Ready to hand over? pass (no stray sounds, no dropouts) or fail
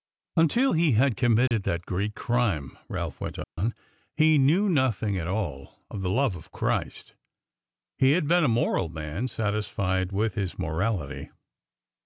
fail